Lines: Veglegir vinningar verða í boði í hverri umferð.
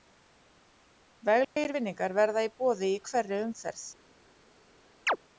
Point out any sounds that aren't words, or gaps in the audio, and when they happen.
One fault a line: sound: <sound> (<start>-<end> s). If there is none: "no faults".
sound: dropout (1.4-1.6 s)
sound: chirp (5.1-5.2 s)